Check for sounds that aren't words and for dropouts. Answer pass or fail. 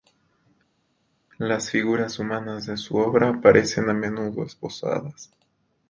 pass